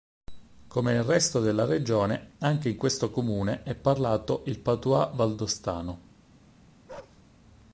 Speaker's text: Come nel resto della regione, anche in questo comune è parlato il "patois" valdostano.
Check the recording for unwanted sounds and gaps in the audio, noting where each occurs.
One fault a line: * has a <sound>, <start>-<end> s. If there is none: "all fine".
* has a bark, 6.9-7.2 s